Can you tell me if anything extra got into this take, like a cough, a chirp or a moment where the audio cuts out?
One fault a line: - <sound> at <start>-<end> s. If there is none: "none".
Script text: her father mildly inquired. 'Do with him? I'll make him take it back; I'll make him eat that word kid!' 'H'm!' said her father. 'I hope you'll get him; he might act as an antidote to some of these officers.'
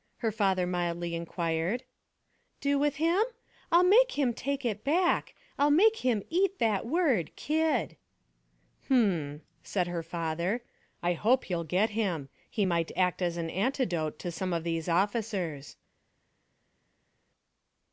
none